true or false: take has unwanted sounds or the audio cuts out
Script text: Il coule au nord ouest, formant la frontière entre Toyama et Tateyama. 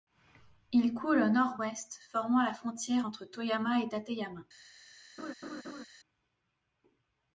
true